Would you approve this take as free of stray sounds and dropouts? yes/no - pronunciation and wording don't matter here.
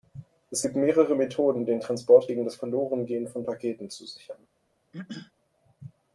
no